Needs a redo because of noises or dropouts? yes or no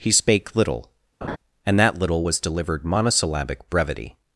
yes